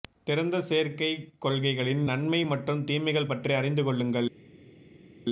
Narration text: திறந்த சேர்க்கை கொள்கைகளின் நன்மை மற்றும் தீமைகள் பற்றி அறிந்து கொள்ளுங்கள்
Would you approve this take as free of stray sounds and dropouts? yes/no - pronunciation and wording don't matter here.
yes